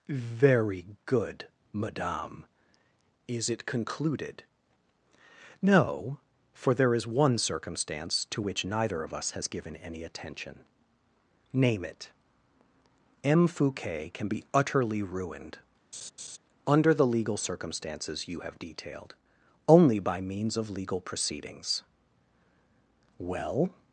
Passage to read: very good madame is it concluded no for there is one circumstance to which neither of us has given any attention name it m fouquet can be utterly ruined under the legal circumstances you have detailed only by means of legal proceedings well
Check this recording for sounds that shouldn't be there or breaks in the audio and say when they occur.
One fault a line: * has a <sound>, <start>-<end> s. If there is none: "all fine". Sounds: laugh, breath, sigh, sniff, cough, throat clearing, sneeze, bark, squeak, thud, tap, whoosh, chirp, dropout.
* has a laugh, 15.9-16.4 s